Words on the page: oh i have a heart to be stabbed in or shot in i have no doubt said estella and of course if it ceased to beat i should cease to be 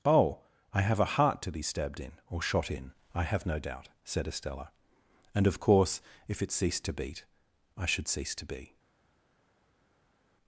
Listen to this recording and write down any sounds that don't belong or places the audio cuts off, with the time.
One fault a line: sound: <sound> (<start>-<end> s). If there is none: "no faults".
no faults